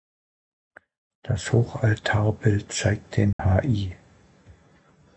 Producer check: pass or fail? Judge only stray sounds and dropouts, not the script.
fail